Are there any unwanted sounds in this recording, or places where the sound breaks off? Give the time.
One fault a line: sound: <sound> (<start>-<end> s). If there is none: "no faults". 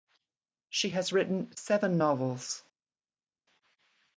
no faults